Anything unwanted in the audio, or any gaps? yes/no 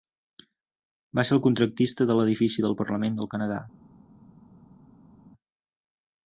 no